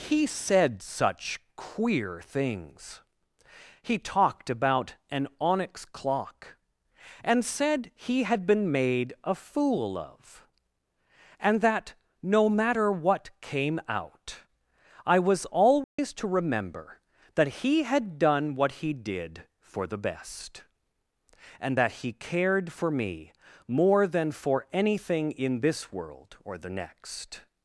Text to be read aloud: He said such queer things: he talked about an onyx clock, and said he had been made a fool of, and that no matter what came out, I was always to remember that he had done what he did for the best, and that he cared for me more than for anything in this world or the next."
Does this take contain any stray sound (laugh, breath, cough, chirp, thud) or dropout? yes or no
yes